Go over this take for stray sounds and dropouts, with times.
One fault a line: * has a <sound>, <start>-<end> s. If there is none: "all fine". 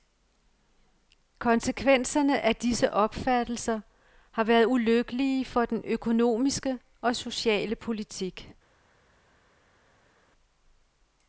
all fine